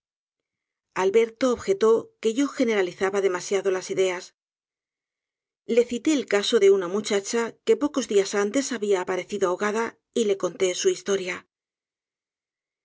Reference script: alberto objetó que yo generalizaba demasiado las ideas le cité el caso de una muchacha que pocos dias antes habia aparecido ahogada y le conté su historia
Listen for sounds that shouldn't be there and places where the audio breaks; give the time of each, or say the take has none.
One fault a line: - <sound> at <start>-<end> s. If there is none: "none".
none